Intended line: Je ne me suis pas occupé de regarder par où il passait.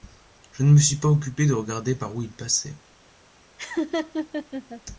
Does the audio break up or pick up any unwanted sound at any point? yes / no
yes